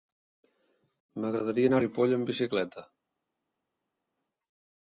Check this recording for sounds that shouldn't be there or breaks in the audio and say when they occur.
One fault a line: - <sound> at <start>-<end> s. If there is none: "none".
none